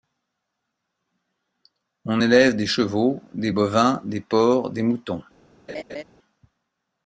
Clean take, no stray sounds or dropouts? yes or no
no